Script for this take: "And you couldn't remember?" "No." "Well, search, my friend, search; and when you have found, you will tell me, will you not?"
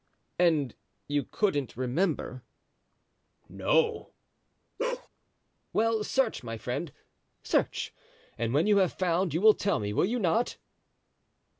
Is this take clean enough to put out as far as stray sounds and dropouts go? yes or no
no